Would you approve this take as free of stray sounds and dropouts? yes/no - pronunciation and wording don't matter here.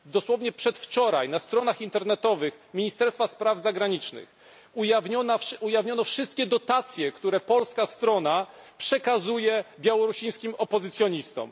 yes